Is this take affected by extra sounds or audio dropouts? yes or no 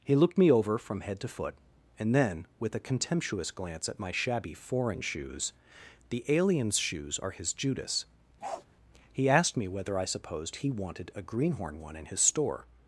yes